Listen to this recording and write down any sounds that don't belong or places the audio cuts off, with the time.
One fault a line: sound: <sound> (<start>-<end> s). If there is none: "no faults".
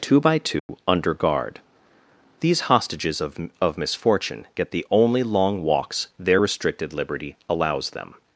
sound: dropout (0.6-0.7 s)